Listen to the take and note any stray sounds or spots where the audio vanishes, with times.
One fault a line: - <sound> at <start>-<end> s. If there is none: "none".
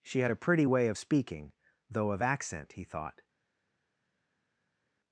none